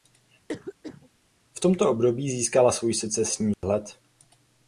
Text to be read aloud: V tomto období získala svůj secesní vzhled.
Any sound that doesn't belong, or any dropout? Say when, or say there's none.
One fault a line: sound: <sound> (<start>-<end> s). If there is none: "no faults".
sound: cough (0.5-1.1 s)
sound: dropout (3.5-3.6 s)